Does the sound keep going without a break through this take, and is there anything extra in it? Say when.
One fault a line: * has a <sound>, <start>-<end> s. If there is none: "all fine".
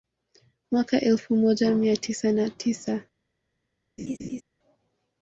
* has a laugh, 4.0-4.4 s